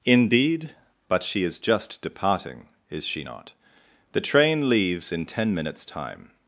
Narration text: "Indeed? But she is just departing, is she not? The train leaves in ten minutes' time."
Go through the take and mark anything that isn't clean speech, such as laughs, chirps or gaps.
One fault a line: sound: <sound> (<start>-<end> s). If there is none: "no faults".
no faults